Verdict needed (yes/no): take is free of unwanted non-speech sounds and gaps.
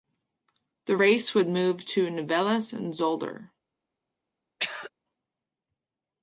no